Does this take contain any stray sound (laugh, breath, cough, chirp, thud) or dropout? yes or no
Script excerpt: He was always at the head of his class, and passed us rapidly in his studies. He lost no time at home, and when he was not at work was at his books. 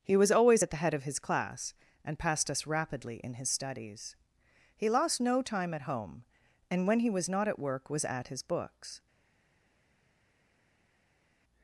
no